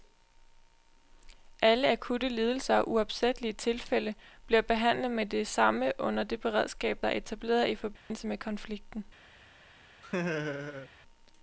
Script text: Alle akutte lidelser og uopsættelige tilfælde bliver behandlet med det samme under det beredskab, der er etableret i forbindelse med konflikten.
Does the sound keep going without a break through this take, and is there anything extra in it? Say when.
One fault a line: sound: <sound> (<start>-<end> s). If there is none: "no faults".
sound: dropout (8.0-8.1 s)
sound: laugh (10.0-10.9 s)